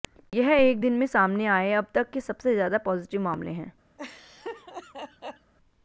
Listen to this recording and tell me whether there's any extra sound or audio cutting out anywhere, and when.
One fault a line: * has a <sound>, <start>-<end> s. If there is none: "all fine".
* has a laugh, 4.0-5.5 s